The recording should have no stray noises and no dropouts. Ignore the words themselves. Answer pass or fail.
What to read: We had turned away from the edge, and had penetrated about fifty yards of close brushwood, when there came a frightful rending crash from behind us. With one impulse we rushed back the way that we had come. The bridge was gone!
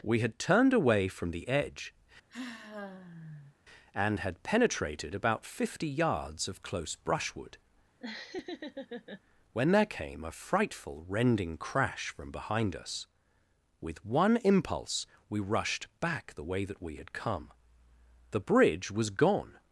fail